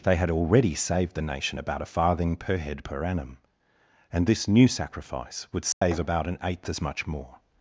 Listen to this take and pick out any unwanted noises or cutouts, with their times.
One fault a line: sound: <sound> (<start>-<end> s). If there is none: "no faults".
sound: dropout (5.7-5.8 s)